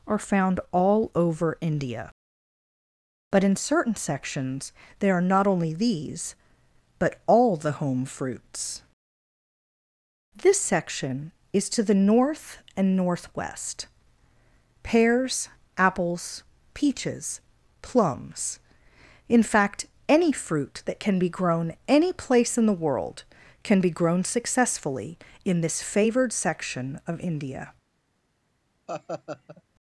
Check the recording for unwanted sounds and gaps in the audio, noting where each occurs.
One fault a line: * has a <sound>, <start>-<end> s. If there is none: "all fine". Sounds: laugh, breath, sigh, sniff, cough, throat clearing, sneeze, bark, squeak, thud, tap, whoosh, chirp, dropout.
* has a laugh, 28.9-29.6 s